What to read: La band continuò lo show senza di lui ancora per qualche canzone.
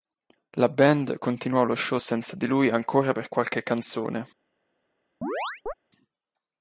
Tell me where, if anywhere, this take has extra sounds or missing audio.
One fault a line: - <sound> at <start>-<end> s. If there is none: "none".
- chirp at 5.2-5.7 s